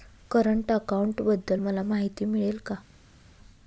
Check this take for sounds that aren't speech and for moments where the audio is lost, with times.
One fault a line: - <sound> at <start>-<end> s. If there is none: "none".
none